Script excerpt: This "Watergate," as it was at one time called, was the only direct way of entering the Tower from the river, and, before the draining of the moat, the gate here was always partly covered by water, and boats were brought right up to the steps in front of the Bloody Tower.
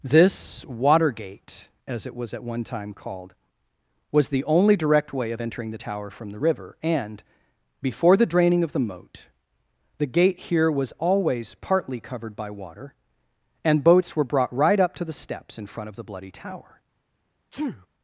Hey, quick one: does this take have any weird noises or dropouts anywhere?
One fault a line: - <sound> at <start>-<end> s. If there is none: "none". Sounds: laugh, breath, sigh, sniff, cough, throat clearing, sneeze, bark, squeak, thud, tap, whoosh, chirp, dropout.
- sneeze at 17.5-17.9 s